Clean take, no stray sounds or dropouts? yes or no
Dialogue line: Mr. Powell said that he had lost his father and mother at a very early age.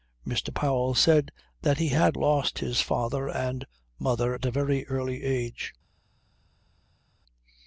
yes